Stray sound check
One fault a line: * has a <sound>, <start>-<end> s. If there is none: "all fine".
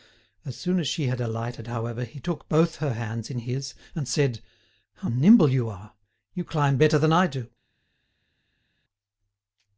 all fine